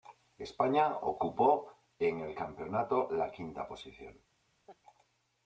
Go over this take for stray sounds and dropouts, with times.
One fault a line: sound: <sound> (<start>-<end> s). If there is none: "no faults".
sound: laugh (4.7-4.8 s)